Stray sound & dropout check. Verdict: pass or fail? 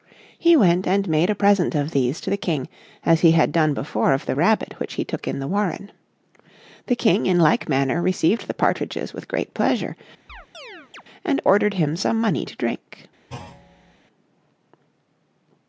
fail